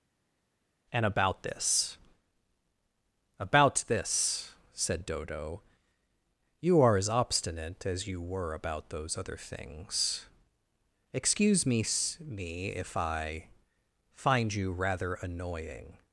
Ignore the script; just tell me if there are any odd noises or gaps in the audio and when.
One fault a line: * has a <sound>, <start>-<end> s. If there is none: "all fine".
all fine